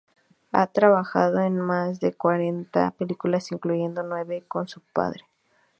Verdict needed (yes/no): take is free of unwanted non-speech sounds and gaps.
yes